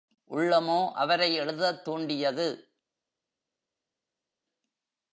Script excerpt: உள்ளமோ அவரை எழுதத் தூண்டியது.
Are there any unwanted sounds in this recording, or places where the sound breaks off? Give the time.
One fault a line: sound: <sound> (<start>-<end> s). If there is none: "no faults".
no faults